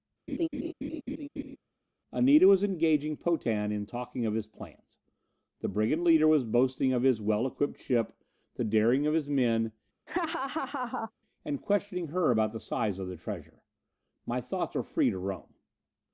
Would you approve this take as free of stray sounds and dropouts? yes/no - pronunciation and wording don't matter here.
no